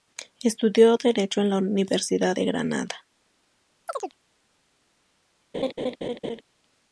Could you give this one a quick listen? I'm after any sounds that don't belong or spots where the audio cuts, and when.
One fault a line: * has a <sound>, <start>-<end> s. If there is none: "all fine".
* has a chirp, 3.9-4.2 s
* has a laugh, 5.5-6.4 s